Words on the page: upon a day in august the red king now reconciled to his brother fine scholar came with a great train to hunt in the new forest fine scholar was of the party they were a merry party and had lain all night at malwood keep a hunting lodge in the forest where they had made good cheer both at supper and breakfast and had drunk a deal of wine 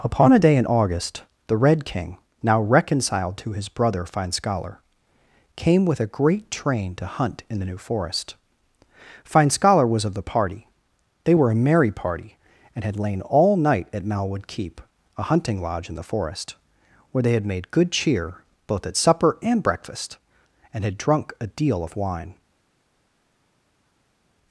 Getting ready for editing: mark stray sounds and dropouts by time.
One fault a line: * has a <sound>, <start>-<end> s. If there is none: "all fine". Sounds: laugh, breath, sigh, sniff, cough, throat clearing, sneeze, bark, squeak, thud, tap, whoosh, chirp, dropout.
all fine